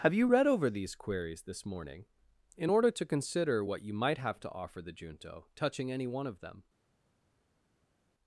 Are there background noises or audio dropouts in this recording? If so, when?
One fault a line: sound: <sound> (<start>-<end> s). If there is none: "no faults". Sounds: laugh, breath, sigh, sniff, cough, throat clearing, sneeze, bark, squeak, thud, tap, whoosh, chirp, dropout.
no faults